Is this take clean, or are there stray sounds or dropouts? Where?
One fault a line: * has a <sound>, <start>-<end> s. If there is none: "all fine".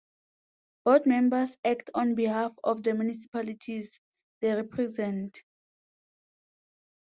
all fine